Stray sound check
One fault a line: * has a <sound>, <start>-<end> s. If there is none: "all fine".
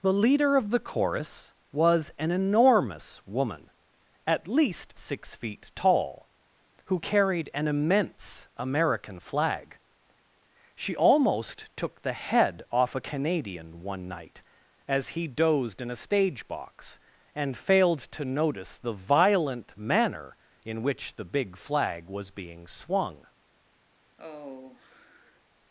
* has a sigh, 24.2-25.4 s